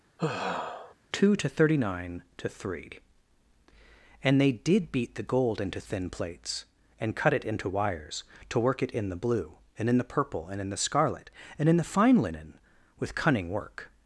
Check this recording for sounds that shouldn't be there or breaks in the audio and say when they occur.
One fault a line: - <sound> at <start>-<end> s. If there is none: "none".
- sigh at 0.2-0.9 s